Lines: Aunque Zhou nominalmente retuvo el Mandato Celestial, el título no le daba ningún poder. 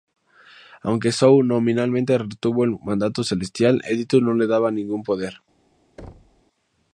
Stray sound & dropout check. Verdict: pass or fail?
fail